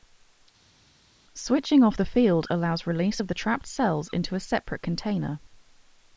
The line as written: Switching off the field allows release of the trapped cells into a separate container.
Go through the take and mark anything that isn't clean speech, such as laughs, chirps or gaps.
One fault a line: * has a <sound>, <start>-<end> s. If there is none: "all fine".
all fine